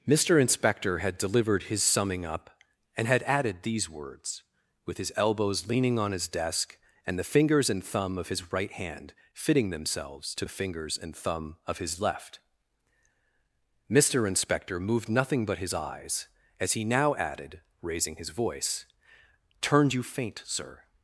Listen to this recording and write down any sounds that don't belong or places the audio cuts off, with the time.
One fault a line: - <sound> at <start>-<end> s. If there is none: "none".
none